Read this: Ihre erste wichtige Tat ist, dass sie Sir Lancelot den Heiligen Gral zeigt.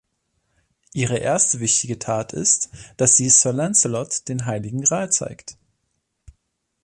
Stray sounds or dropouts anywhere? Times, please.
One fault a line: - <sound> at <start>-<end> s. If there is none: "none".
none